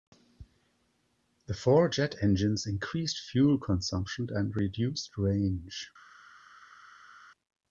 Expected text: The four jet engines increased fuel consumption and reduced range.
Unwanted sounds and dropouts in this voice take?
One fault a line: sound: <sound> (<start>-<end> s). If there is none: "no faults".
no faults